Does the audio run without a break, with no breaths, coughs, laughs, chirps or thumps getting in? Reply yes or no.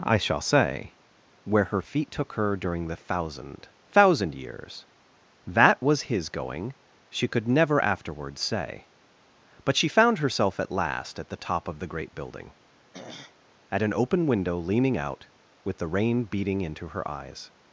no